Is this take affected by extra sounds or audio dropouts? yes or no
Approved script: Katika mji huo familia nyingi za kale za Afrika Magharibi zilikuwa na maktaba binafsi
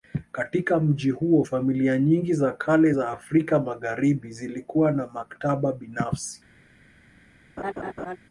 yes